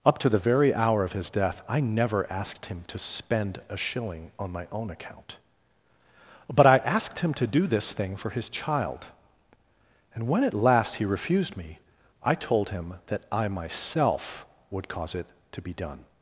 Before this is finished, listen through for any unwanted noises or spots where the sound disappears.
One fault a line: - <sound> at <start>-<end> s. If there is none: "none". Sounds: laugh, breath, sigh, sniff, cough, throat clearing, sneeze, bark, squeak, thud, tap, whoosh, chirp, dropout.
none